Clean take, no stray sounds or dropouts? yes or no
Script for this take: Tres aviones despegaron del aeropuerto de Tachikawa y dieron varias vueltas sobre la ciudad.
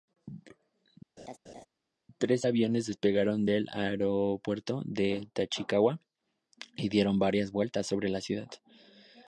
no